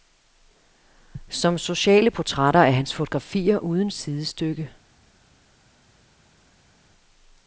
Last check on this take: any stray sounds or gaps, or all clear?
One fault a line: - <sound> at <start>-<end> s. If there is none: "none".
none